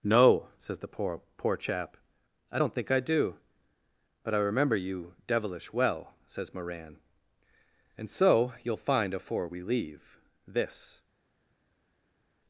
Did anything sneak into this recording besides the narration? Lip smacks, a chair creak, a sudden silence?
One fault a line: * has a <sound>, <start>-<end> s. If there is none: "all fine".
all fine